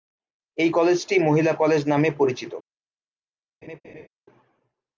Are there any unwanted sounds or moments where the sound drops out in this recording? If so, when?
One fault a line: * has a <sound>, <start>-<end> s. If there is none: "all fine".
* has a laugh, 3.6-4.1 s